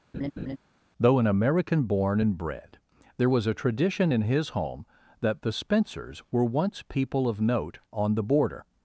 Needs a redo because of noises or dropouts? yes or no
yes